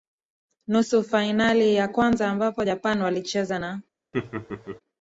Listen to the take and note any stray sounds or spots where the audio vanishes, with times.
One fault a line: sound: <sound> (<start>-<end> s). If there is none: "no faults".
sound: laugh (4.1-4.8 s)